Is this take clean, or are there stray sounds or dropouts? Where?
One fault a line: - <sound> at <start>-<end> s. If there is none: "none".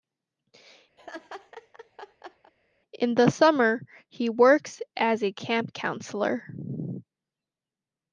- laugh at 1.0-2.5 s